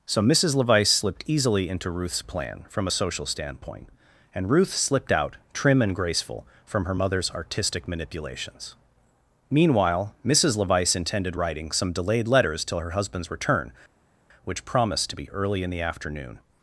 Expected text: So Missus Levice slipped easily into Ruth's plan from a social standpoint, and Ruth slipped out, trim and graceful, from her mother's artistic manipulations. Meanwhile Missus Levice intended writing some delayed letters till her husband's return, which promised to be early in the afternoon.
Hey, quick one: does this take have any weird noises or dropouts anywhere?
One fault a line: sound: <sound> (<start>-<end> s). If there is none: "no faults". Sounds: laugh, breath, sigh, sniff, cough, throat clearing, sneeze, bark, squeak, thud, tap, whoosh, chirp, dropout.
no faults